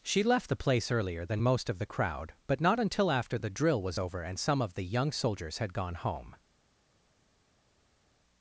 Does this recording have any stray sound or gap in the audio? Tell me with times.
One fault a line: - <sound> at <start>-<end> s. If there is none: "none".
none